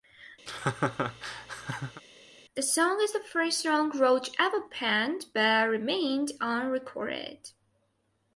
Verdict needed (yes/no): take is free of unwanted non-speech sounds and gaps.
no